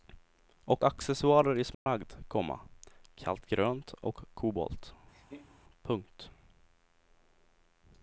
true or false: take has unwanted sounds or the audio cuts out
true